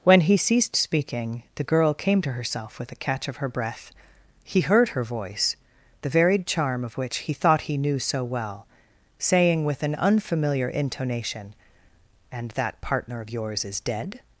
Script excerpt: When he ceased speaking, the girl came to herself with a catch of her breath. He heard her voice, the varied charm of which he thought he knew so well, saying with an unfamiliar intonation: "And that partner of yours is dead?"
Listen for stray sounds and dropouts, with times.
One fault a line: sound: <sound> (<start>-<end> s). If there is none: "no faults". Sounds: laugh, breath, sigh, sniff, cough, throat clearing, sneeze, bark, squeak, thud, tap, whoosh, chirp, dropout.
no faults